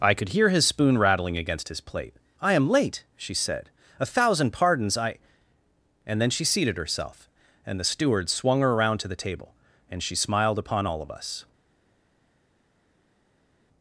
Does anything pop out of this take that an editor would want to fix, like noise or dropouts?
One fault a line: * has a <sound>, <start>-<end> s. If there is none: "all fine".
all fine